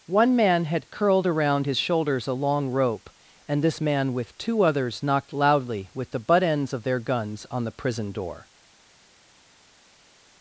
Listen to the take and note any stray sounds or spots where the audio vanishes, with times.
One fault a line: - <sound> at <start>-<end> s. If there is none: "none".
none